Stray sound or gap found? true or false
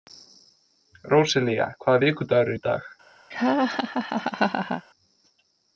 true